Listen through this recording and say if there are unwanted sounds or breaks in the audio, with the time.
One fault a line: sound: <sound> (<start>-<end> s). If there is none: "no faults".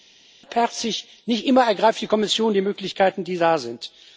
no faults